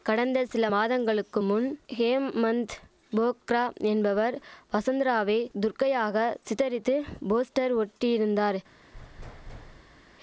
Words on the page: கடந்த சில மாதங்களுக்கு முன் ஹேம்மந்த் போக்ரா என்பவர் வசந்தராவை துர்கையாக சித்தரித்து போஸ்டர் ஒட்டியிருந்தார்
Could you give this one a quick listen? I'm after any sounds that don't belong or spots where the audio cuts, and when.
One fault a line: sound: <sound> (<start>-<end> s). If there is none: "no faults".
sound: thud (8.9-10.2 s)